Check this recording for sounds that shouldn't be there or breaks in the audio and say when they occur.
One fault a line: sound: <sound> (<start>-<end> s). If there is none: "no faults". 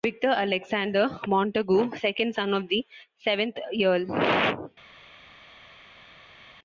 no faults